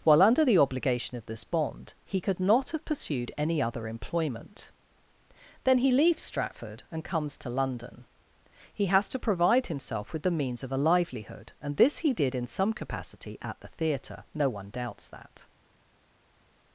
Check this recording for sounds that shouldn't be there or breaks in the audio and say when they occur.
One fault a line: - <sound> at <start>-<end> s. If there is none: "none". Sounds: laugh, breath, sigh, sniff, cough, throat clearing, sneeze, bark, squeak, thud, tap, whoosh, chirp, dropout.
none